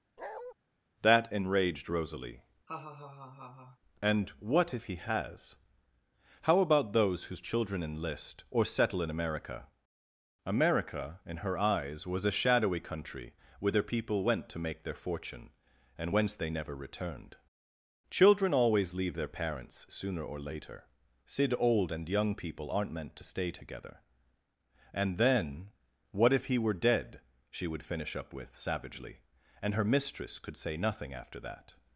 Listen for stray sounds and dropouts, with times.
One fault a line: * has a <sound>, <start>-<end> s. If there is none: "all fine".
* has a bark, 0.2-0.5 s
* has a laugh, 2.7-3.8 s